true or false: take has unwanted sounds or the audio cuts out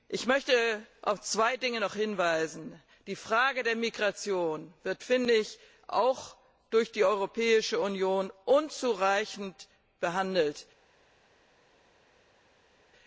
false